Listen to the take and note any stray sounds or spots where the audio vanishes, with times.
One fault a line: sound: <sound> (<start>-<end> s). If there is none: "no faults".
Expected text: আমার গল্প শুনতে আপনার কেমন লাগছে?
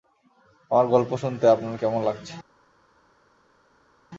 no faults